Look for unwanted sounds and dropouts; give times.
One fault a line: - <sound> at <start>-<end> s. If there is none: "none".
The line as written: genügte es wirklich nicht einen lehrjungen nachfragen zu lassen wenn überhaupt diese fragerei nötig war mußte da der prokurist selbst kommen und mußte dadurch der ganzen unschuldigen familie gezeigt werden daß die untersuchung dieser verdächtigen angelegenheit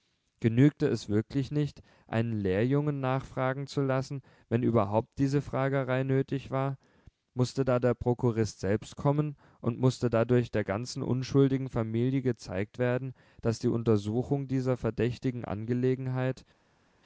none